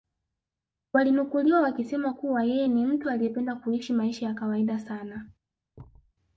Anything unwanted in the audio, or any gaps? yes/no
yes